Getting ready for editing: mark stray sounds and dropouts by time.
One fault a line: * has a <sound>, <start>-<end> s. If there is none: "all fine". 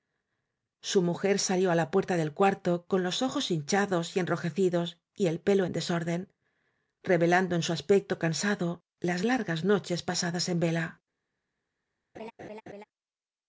* has a laugh, 12.1-12.8 s